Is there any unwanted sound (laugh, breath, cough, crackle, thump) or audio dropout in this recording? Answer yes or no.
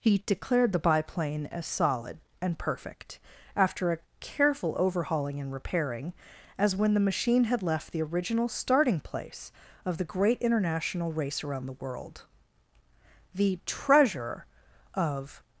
no